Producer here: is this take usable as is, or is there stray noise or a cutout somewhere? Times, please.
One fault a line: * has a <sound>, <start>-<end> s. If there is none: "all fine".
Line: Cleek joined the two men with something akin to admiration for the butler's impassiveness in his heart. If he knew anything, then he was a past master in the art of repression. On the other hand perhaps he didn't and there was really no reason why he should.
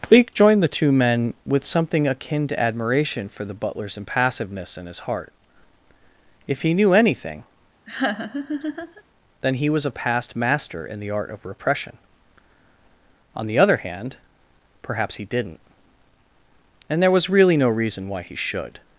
* has a laugh, 7.9-9.0 s